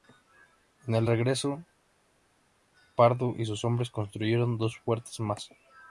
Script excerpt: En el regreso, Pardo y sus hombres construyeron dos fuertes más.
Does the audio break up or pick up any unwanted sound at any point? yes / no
no